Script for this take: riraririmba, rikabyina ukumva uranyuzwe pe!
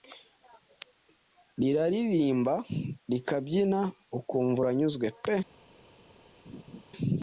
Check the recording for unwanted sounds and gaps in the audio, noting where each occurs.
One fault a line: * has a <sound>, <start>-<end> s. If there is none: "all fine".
* has a laugh, 6.5-6.8 s